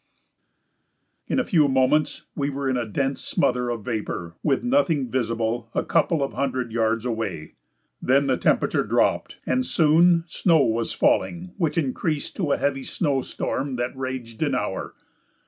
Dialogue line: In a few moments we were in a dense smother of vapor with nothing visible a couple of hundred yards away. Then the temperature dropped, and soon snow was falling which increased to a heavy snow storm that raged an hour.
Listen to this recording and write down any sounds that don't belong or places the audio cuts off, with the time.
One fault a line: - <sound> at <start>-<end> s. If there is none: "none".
none